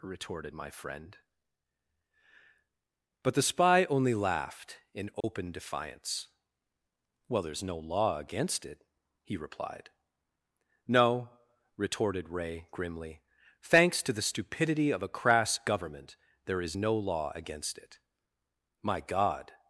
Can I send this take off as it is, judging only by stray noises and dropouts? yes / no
no